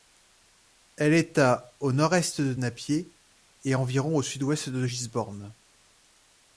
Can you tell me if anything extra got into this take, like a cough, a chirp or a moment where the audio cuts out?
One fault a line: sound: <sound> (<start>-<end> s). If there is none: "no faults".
no faults